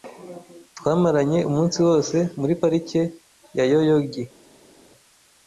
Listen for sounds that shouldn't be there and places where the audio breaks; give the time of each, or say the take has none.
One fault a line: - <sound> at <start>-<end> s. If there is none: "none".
none